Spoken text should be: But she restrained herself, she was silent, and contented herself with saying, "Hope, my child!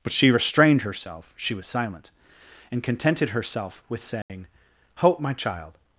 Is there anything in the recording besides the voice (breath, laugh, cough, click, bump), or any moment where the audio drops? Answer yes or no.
yes